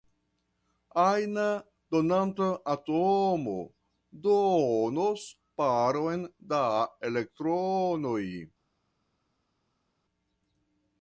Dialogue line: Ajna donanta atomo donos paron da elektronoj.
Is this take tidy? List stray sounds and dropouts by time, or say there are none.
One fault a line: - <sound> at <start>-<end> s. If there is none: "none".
none